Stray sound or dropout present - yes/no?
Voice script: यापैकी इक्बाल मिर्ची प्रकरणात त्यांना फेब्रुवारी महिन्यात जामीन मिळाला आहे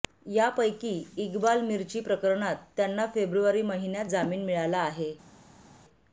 no